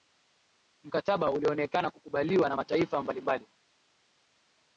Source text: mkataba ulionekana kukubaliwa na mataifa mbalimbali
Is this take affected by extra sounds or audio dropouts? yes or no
no